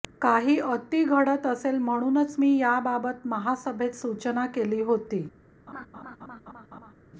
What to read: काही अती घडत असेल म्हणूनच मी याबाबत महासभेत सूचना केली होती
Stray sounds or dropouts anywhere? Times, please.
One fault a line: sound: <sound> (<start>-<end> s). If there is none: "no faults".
sound: laugh (5.7-6.9 s)